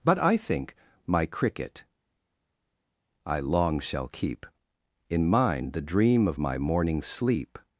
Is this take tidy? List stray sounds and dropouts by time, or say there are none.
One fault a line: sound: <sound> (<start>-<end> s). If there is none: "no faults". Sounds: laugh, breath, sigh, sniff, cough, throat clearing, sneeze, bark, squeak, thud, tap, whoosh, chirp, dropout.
no faults